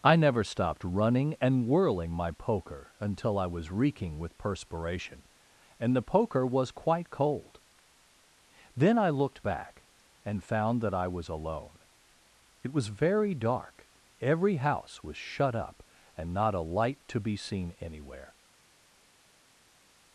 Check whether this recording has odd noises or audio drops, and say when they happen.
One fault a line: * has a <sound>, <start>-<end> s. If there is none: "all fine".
all fine